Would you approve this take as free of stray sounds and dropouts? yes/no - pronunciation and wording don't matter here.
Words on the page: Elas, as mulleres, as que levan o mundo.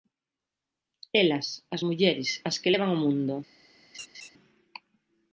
no